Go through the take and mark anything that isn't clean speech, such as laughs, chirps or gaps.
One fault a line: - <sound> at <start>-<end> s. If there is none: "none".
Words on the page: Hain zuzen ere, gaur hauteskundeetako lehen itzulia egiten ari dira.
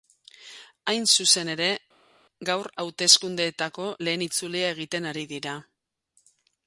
none